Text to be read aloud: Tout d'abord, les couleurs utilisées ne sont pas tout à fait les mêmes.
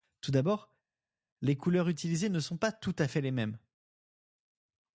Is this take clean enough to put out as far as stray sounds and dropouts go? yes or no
yes